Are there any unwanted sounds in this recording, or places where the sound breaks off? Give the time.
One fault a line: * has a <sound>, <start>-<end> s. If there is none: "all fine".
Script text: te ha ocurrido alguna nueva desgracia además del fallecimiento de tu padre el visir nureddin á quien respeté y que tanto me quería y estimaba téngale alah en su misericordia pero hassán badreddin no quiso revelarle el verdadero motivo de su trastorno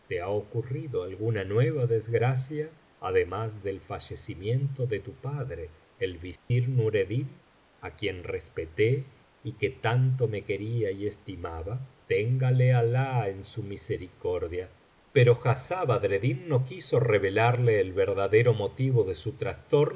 * has a dropout, 6.4-6.5 s